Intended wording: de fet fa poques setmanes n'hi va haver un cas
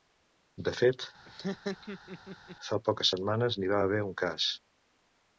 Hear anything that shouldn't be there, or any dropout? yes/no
yes